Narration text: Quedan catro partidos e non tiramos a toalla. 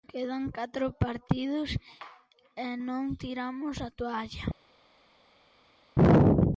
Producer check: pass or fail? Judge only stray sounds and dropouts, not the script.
pass